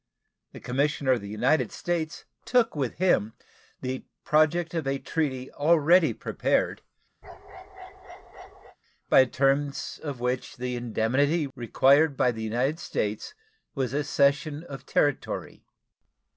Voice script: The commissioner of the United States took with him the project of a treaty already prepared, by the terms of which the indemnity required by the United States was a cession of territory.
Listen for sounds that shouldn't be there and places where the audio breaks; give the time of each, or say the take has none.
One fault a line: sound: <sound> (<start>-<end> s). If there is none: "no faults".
sound: bark (7.2-8.8 s)